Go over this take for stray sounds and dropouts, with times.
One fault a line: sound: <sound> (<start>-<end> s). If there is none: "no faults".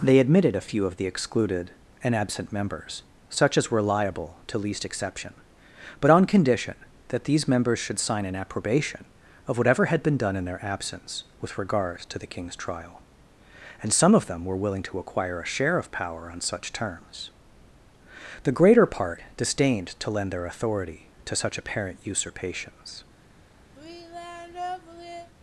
sound: sigh (23.7-25.3 s)